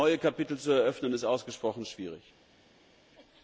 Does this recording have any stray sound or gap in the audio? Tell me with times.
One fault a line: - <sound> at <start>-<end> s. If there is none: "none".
none